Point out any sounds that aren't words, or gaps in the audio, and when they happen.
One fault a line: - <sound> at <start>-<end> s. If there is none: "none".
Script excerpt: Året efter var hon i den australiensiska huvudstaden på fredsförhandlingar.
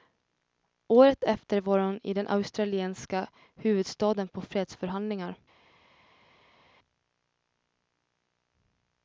none